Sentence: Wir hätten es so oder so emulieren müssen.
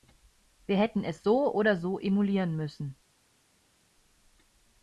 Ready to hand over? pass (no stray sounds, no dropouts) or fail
pass